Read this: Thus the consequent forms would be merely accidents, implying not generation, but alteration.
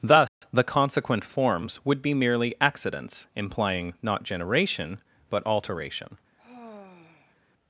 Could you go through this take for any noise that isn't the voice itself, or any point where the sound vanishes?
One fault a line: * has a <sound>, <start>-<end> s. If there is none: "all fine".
* has a dropout, 0.3-0.4 s
* has a sigh, 6.4-7.4 s